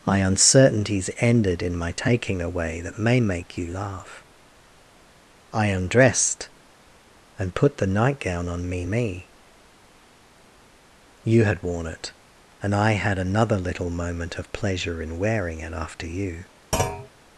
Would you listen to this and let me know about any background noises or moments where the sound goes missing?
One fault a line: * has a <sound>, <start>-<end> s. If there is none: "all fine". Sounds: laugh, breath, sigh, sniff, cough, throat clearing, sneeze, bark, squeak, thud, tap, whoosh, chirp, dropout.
* has a thud, 16.7-17.1 s